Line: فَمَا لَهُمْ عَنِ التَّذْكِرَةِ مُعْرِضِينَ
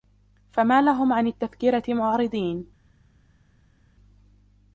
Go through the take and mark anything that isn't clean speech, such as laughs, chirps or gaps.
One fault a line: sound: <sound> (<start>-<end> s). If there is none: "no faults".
no faults